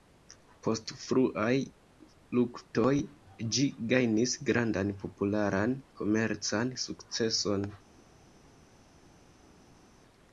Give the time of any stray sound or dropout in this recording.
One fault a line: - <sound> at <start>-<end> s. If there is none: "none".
none